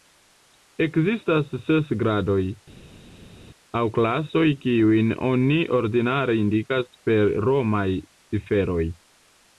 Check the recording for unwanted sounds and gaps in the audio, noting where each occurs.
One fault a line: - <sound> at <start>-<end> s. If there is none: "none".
none